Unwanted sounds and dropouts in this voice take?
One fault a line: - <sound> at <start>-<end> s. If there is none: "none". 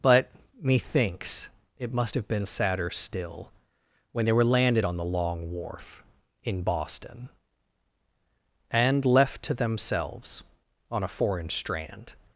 none